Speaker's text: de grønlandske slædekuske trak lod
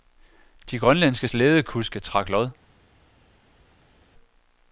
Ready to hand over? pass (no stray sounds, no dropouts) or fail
pass